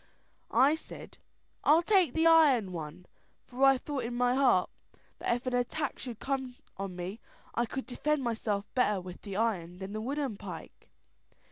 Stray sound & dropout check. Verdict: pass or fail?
pass